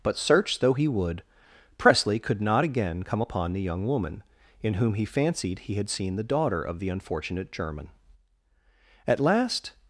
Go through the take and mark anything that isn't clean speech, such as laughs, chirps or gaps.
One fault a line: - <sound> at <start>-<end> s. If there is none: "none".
none